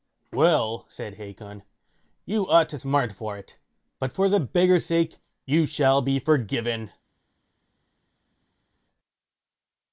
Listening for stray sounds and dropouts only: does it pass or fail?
pass